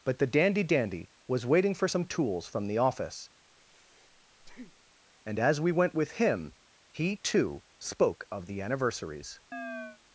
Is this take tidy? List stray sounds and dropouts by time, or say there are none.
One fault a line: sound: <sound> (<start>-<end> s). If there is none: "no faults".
sound: breath (3.5-5.0 s)
sound: chirp (9.5-10.0 s)